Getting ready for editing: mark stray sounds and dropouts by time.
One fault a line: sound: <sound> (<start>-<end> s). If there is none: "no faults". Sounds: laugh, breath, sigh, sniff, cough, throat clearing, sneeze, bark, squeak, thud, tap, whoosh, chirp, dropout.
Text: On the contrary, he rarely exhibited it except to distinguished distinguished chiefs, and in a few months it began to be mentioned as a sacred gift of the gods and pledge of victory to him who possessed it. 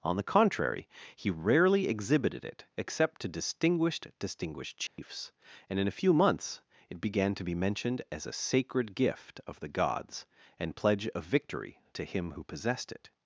sound: dropout (4.9-5.0 s)